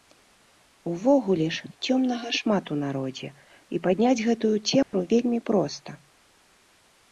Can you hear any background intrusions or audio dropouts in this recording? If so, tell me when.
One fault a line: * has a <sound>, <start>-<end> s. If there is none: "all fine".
* has a dropout, 4.8-4.9 s